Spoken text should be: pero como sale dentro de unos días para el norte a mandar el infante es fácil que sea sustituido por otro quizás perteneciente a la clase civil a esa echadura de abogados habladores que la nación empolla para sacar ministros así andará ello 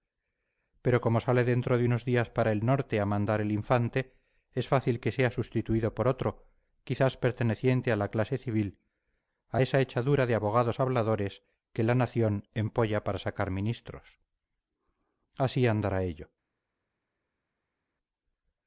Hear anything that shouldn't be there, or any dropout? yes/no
no